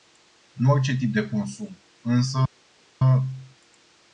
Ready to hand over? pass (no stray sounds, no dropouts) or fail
pass